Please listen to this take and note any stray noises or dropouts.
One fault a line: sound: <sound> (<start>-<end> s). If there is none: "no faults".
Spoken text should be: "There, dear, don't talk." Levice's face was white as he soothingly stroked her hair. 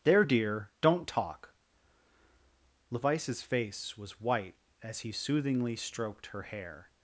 no faults